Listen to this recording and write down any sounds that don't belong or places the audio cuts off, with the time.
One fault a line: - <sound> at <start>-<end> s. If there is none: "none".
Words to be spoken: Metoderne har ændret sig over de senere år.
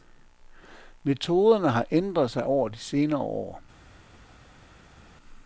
none